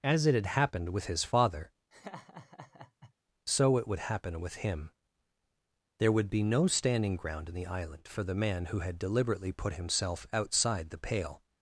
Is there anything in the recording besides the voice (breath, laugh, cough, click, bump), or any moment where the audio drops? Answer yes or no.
yes